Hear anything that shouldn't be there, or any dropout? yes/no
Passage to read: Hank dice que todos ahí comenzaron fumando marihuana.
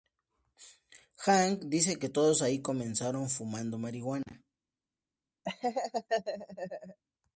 yes